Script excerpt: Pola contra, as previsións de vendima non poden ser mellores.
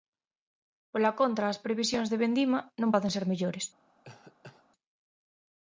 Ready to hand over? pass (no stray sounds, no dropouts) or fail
fail